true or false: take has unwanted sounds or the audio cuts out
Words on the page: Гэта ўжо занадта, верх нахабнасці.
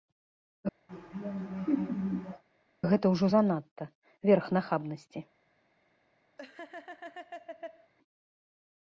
true